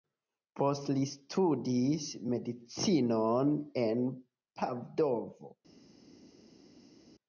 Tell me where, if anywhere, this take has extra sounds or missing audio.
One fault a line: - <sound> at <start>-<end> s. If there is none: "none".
none